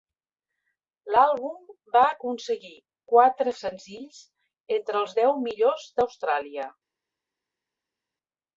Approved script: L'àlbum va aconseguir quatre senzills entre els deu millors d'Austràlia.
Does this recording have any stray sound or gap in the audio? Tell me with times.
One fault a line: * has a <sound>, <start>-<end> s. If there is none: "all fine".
all fine